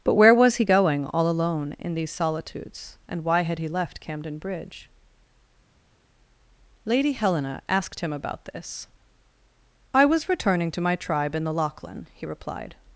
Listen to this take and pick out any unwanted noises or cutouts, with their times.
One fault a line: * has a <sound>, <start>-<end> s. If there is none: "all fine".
all fine